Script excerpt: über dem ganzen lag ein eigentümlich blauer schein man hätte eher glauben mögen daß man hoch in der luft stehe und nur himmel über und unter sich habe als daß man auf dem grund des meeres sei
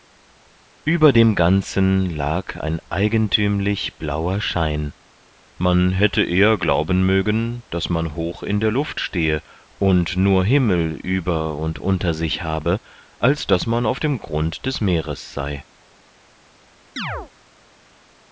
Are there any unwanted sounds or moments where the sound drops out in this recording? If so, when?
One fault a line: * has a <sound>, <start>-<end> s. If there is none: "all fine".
* has a chirp, 17.0-17.3 s